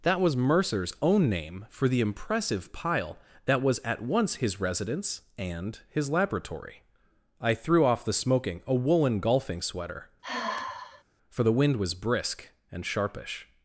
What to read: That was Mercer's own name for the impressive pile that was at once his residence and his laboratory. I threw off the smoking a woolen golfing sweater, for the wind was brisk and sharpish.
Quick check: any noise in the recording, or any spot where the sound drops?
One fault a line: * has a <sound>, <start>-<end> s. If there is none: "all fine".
* has a sigh, 10.2-11.0 s